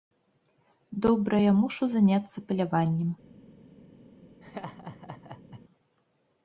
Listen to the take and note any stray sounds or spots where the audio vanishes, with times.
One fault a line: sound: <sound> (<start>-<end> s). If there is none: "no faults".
sound: laugh (4.4-5.6 s)